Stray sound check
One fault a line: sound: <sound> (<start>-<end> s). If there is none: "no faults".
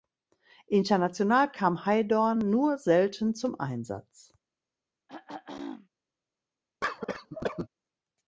sound: throat clearing (5.1-5.9 s)
sound: cough (6.8-7.7 s)